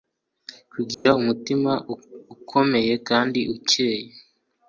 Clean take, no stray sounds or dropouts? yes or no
no